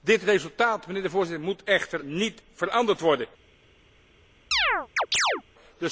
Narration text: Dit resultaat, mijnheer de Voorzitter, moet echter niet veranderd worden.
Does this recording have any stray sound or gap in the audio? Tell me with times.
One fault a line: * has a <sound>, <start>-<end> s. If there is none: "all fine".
* has a chirp, 4.5-5.4 s